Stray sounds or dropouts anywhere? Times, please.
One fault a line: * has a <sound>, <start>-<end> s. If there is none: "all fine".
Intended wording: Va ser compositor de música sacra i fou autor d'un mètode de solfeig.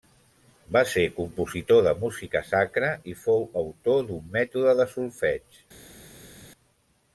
all fine